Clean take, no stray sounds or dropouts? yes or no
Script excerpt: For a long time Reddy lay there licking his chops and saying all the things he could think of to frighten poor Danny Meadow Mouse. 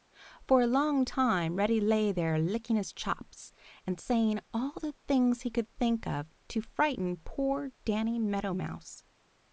yes